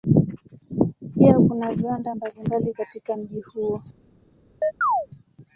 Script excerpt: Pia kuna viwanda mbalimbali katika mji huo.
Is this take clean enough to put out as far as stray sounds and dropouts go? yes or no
no